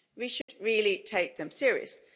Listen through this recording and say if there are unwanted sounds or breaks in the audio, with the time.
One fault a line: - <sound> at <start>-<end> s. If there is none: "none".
- dropout at 0.4-0.5 s